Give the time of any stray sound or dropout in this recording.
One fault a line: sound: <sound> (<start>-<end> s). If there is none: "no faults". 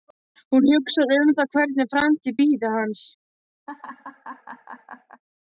sound: laugh (3.7-5.2 s)